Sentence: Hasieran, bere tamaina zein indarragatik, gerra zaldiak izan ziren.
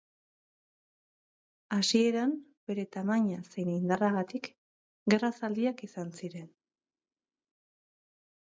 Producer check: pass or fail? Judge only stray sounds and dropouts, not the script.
pass